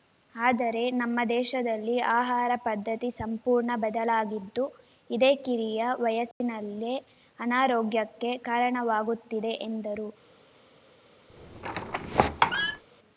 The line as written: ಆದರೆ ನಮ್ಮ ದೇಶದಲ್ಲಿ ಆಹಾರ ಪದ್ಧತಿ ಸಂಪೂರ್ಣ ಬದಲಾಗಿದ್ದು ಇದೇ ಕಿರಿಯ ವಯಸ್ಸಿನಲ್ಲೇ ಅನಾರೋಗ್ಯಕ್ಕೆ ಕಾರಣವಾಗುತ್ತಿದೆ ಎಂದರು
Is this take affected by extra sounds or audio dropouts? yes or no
yes